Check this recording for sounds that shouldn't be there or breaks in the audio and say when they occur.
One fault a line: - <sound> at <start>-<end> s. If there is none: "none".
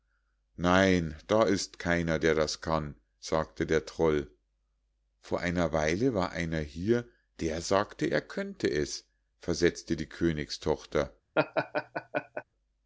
- laugh at 11.3-12.4 s